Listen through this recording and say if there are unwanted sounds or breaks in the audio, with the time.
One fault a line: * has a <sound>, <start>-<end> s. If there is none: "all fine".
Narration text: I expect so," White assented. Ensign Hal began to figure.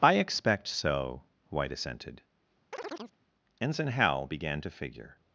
* has a chirp, 2.7-3.2 s